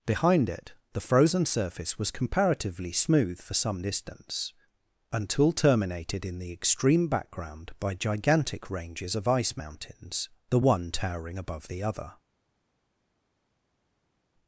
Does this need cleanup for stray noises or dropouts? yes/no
no